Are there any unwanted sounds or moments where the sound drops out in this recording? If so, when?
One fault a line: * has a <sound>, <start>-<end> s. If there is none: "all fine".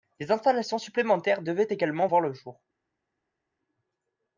all fine